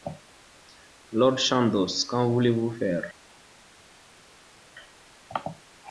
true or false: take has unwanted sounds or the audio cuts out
false